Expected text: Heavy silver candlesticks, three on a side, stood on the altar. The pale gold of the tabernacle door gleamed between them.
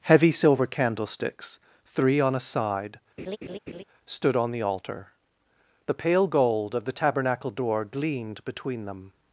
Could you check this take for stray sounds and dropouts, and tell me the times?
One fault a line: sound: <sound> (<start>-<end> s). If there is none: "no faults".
sound: laugh (3.2-3.8 s)